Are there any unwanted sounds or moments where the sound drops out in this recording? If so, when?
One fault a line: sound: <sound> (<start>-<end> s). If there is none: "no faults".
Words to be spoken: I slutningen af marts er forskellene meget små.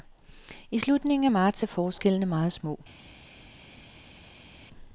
no faults